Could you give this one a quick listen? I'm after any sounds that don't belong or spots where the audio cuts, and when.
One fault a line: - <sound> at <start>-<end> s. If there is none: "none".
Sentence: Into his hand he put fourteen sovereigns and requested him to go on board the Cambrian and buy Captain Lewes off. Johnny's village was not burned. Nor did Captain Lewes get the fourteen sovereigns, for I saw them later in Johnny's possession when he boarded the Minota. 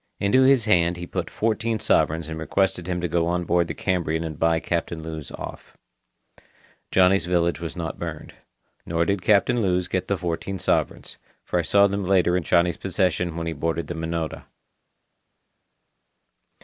none